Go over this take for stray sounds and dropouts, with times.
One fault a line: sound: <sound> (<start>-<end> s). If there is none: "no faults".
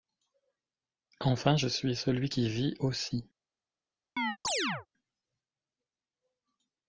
sound: chirp (4.2-4.9 s)